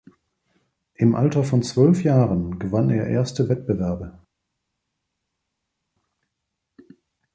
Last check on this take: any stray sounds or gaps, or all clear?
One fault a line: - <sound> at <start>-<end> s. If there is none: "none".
none